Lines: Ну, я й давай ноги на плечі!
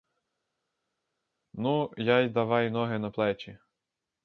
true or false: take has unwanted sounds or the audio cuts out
false